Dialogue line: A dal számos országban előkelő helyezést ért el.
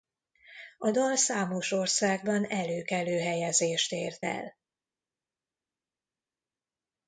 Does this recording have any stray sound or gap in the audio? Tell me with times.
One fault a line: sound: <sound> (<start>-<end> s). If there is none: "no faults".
no faults